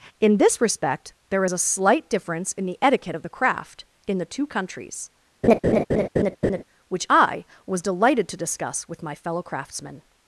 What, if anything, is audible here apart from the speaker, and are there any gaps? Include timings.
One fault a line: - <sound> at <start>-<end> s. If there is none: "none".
- laugh at 5.4-6.6 s